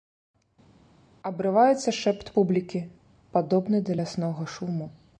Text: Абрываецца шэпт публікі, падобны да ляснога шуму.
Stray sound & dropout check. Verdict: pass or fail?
pass